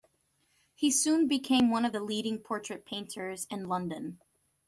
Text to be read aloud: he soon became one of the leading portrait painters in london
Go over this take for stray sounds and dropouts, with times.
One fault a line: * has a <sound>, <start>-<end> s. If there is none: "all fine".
all fine